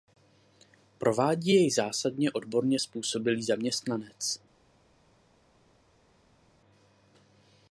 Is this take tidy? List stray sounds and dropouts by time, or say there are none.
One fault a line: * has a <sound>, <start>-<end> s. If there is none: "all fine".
all fine